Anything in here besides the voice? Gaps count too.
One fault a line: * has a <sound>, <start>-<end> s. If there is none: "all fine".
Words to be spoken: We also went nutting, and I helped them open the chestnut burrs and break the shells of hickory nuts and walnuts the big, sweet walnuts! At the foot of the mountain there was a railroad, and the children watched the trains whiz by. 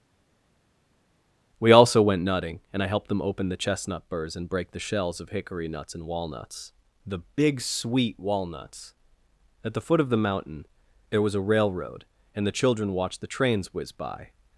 all fine